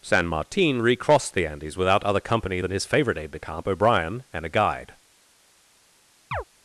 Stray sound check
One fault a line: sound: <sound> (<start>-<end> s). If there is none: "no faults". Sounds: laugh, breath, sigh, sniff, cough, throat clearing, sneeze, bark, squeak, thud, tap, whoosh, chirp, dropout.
sound: chirp (6.3-6.4 s)